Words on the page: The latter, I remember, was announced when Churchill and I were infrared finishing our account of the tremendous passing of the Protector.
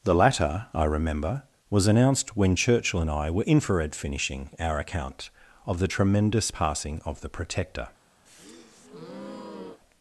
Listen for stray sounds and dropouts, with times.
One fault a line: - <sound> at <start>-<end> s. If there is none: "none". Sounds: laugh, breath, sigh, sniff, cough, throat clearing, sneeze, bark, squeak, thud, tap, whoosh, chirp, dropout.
- breath at 8.3-9.8 s